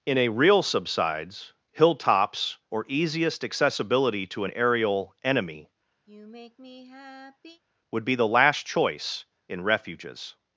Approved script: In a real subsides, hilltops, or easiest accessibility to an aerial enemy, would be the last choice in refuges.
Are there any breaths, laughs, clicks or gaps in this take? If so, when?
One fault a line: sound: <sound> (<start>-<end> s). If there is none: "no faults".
sound: sigh (6.1-7.6 s)